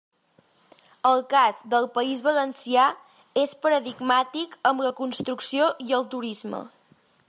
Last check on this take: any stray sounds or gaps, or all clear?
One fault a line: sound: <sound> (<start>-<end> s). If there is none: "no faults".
no faults